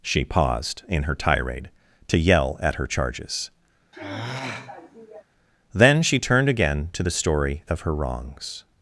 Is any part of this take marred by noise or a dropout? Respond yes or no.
yes